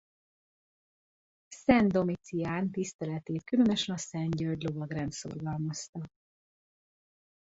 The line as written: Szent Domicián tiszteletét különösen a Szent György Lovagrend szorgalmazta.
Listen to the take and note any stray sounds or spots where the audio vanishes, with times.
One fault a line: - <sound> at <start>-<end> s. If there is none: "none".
none